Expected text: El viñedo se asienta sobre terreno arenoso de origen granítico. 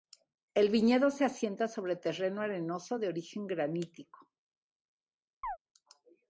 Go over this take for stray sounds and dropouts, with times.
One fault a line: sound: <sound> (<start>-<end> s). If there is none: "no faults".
sound: chirp (5.4-5.6 s)